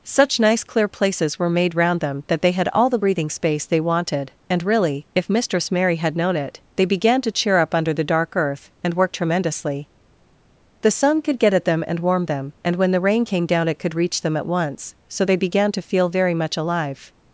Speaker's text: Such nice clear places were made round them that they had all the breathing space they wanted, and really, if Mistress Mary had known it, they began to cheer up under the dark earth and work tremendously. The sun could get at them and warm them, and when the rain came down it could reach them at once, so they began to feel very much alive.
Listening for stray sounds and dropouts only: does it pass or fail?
pass